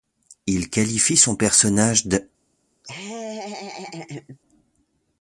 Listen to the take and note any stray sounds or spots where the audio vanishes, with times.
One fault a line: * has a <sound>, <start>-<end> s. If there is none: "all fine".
* has a laugh, 2.8-4.4 s